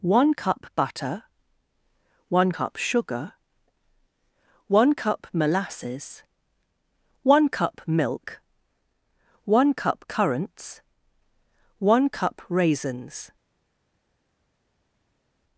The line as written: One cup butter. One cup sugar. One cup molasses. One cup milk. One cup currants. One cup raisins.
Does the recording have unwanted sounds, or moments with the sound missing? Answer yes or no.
no